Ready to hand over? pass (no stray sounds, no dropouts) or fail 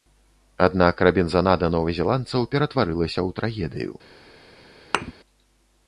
fail